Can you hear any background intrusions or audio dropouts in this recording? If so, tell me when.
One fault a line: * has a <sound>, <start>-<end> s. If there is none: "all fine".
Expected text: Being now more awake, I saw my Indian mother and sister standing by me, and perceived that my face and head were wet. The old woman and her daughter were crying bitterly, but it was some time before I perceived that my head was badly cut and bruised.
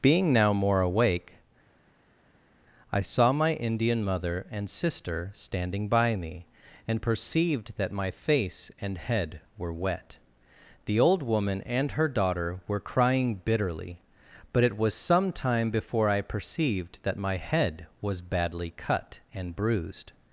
all fine